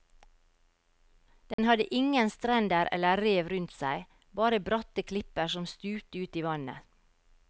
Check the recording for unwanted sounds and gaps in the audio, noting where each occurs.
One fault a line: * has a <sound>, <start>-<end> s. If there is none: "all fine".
* has a dropout, 1.5-1.6 s